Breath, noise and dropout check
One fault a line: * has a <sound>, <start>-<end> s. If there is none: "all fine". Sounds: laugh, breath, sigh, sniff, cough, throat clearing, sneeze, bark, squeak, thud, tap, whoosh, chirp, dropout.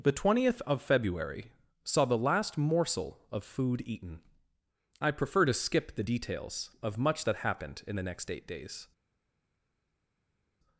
all fine